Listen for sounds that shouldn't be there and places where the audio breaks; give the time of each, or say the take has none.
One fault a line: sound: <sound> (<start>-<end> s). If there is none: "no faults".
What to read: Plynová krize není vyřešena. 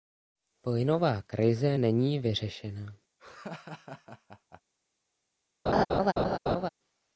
sound: laugh (3.2-4.6 s)
sound: laugh (5.7-6.7 s)